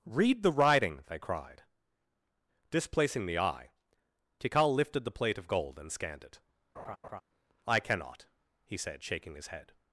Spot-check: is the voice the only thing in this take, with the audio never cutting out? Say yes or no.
no